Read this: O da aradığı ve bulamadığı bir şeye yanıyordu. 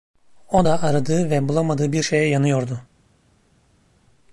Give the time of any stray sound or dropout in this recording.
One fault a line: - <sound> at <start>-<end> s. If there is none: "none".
none